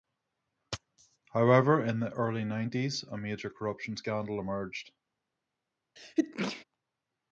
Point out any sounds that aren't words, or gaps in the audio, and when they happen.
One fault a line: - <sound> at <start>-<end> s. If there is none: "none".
- sneeze at 6.0-6.6 s